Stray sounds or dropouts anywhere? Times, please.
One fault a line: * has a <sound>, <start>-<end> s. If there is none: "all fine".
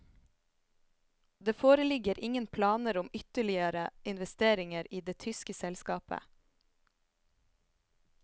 all fine